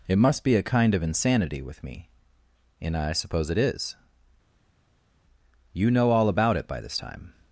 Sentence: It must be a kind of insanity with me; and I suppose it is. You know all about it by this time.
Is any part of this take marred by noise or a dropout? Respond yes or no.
no